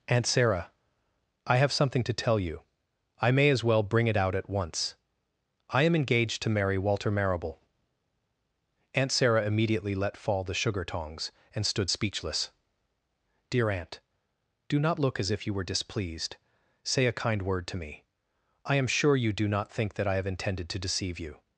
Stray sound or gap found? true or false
false